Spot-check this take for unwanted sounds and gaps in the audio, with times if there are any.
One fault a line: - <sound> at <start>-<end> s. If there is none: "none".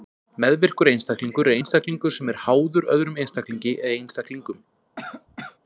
- cough at 5.0-5.6 s